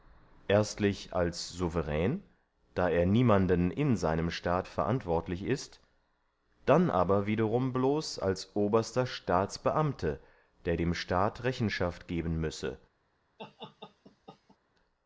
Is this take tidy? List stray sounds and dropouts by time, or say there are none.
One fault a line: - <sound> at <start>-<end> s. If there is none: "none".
- laugh at 13.4-14.6 s